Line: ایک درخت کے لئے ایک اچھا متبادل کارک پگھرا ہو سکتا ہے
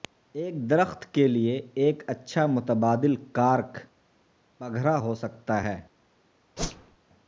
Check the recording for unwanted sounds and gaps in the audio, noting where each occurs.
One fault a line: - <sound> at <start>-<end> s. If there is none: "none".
- whoosh at 6.6-7.0 s